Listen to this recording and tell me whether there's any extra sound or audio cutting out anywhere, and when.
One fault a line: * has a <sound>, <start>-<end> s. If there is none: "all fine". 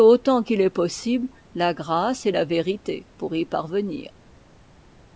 all fine